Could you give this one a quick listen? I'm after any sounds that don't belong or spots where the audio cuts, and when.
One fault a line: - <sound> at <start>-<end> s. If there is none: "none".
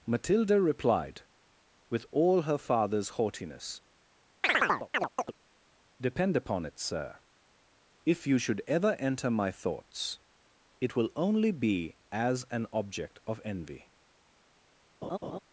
- chirp at 4.4-5.3 s
- laugh at 15.0-15.4 s